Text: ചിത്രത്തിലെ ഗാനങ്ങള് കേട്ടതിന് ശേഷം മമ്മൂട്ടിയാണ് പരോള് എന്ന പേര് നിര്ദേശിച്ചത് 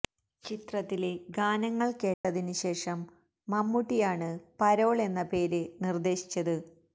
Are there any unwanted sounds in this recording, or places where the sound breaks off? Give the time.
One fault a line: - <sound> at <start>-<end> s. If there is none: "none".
- dropout at 2.1-2.2 s